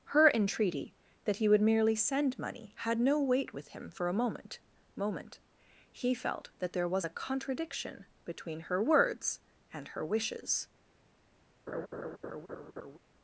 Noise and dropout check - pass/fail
fail